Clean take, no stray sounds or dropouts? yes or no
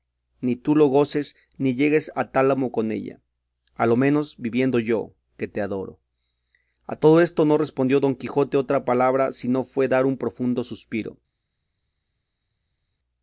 yes